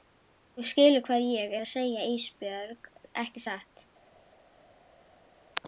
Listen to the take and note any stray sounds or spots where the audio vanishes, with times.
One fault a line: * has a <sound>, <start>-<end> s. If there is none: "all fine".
all fine